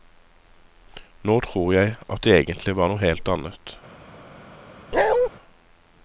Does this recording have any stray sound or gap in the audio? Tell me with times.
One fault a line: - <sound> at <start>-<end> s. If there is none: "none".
- bark at 4.9-5.3 s